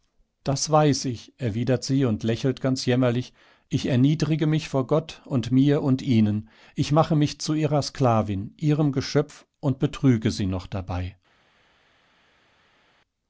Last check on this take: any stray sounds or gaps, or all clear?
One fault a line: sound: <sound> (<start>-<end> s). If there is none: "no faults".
no faults